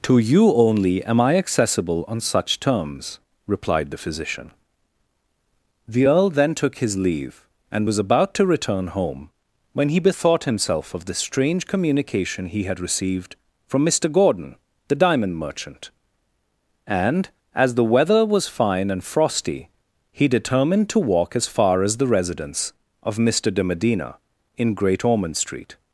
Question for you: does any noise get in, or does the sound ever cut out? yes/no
no